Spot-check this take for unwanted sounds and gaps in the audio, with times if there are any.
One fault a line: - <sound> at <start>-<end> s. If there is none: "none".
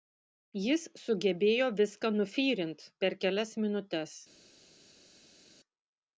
none